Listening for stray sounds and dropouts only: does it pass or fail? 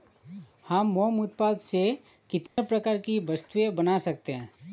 fail